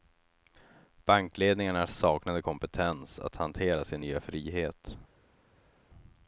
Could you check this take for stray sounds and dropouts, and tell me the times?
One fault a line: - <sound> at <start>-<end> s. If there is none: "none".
none